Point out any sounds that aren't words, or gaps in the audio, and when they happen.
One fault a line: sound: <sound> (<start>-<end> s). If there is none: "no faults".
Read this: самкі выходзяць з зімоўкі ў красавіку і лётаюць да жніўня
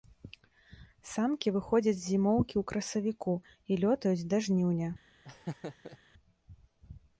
sound: laugh (5.2-6.0 s)